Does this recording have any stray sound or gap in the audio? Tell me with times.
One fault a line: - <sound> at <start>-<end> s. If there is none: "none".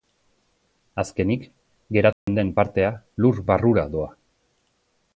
- dropout at 2.1-2.3 s